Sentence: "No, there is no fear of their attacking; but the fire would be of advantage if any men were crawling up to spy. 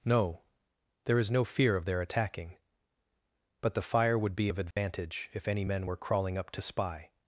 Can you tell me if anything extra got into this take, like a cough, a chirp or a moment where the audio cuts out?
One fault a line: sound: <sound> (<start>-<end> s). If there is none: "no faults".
sound: dropout (4.7-4.8 s)